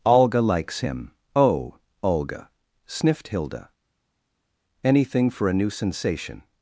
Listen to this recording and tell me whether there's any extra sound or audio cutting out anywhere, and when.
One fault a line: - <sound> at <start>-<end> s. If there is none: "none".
none